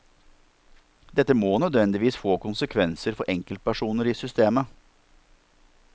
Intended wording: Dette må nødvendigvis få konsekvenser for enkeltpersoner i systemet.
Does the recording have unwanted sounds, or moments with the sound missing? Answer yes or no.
no